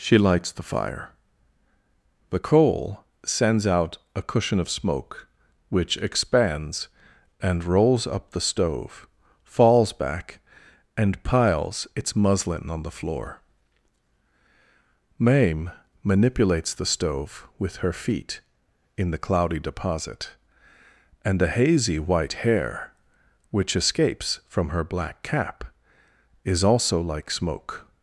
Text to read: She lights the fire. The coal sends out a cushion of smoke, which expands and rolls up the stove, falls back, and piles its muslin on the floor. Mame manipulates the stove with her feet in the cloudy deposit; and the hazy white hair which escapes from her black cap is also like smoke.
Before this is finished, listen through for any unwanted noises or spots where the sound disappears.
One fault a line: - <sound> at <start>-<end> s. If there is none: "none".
none